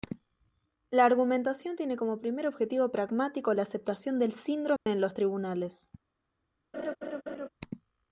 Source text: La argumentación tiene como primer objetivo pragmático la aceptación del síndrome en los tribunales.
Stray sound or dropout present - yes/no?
yes